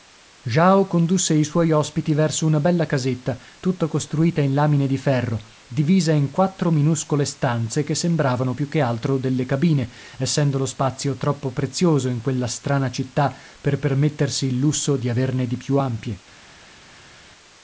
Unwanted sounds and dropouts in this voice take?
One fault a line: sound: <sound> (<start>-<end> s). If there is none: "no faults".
no faults